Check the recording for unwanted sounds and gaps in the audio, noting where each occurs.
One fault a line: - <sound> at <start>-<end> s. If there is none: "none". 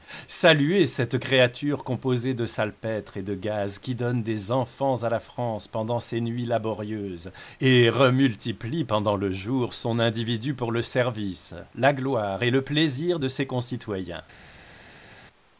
none